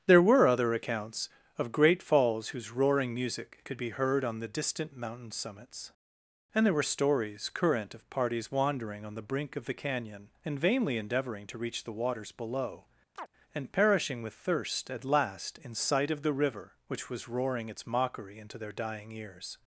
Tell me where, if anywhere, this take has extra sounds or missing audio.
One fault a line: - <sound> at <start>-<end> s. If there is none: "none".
- chirp at 13.2-13.3 s